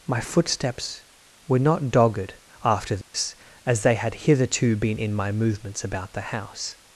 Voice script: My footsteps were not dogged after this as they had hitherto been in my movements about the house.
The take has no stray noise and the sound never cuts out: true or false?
false